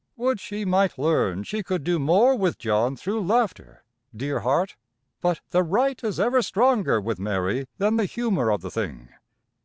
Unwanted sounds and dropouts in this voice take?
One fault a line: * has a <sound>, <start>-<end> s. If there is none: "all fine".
all fine